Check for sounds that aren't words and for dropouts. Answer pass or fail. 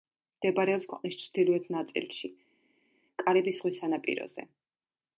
pass